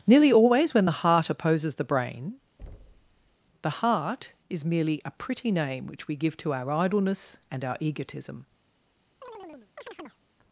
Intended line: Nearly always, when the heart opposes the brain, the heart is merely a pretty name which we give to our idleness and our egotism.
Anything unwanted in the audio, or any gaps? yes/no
yes